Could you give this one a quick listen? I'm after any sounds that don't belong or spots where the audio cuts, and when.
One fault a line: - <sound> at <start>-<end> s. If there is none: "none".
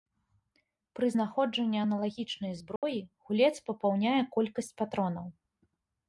- dropout at 2.8-2.8 s